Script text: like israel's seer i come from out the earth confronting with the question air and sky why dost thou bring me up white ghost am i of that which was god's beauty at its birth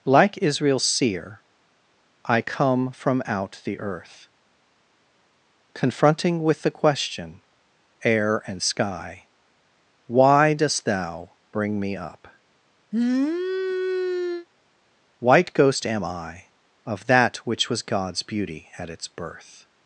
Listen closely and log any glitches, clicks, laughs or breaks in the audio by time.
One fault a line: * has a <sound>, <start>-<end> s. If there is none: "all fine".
* has a sniff, 12.9-14.5 s